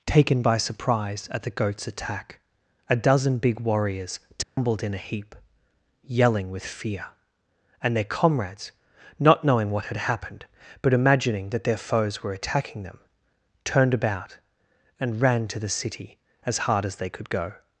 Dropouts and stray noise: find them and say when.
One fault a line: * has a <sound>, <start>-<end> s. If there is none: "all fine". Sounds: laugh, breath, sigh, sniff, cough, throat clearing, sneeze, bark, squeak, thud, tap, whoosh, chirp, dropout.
* has a dropout, 4.4-4.6 s